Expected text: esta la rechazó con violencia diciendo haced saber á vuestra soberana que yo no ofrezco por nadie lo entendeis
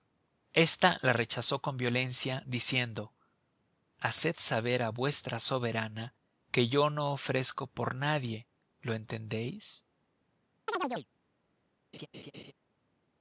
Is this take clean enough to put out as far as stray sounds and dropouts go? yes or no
no